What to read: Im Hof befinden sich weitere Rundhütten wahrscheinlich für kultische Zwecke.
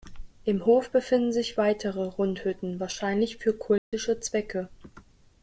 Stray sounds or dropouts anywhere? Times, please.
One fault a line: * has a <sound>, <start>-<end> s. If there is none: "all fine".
* has a dropout, 3.8-3.9 s